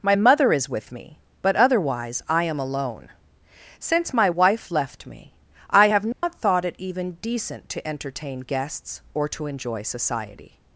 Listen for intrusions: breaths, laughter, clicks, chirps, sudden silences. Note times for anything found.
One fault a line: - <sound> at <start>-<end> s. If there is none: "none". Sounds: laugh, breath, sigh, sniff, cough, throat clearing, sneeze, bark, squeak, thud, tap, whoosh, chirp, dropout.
- dropout at 6.1-6.2 s